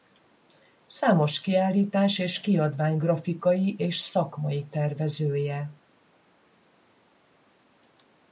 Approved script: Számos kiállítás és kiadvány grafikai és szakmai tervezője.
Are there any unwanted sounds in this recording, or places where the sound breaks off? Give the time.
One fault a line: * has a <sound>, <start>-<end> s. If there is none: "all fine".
all fine